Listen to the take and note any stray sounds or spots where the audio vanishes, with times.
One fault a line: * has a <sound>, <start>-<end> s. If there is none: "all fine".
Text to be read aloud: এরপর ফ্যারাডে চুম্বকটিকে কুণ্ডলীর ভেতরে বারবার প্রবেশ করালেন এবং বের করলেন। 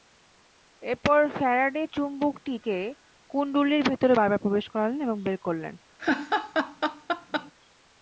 * has a laugh, 6.0-7.5 s